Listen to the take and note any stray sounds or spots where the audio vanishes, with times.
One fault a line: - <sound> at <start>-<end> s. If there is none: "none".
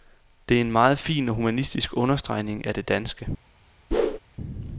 - whoosh at 3.9-4.2 s